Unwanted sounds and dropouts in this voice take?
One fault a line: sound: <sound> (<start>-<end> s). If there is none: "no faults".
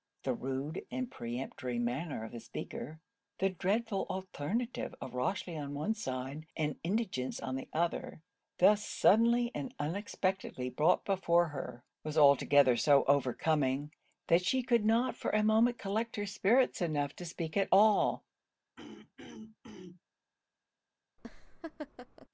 sound: throat clearing (18.8-20.0 s)
sound: laugh (21.2-22.3 s)